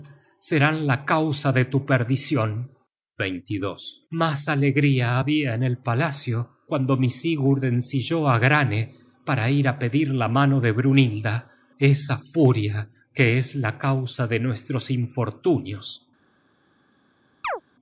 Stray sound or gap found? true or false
true